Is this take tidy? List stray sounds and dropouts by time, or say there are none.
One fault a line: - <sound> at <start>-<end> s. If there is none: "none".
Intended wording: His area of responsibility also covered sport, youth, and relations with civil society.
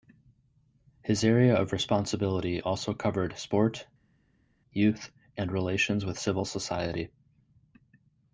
none